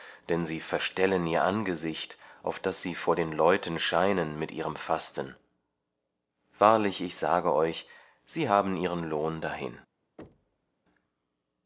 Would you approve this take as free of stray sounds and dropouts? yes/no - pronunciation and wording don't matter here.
no